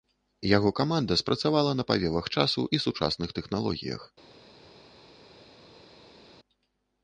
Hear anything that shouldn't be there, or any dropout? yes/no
no